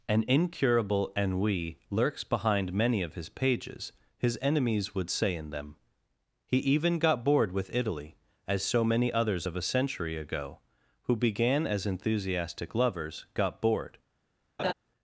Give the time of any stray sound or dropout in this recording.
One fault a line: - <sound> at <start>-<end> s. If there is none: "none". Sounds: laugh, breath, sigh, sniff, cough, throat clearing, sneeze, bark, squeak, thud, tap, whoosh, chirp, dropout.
- laugh at 14.6-14.7 s